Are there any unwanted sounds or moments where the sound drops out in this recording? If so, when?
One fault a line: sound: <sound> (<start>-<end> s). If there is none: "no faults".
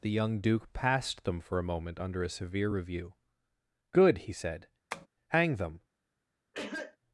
sound: tap (4.9-5.1 s)
sound: cough (6.5-7.0 s)